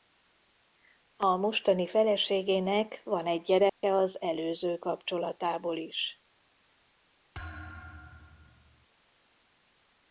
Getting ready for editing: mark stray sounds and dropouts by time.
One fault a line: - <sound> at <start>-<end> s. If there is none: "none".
- dropout at 3.7-3.8 s
- thud at 7.3-8.9 s